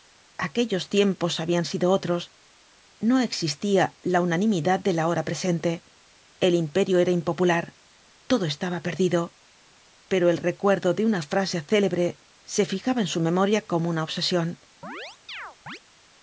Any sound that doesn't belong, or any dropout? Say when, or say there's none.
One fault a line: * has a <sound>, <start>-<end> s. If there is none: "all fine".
* has a chirp, 14.8-15.8 s